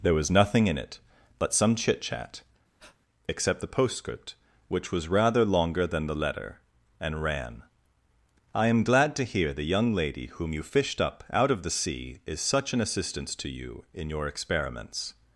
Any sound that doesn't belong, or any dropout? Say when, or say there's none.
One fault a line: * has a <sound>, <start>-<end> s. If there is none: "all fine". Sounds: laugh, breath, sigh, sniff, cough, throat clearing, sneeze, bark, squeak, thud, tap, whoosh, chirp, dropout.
* has a breath, 2.8-3.0 s